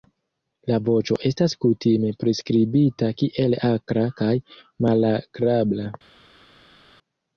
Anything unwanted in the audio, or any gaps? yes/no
no